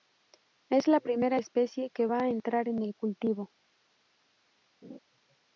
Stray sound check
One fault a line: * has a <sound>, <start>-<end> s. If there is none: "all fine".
* has a laugh, 4.8-5.0 s